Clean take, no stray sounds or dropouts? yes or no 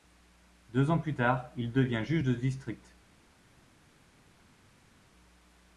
yes